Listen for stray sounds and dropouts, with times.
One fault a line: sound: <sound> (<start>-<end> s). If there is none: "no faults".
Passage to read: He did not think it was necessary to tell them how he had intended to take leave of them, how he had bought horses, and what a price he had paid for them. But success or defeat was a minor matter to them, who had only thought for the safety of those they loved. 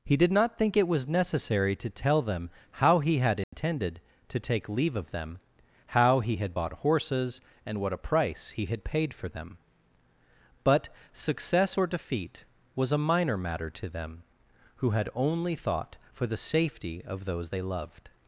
sound: dropout (3.4-3.5 s)